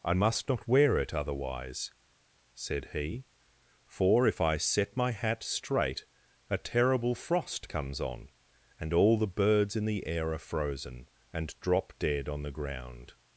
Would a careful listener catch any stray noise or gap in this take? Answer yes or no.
no